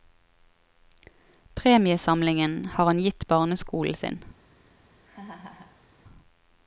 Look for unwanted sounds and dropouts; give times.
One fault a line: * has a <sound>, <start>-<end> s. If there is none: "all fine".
* has a laugh, 5.0-5.8 s